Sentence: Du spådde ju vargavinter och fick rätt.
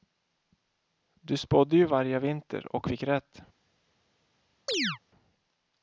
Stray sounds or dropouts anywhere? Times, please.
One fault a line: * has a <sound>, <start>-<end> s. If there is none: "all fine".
* has a chirp, 4.7-5.0 s